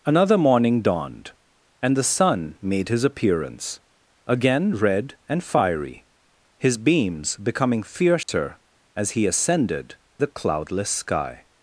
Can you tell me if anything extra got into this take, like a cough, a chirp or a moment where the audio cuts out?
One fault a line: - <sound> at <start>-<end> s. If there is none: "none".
- dropout at 8.2-8.3 s